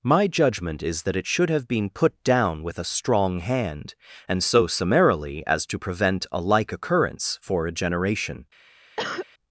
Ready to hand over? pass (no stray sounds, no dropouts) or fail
fail